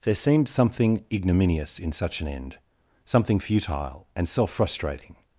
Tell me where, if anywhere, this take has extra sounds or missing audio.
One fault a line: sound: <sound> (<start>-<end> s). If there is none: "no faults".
no faults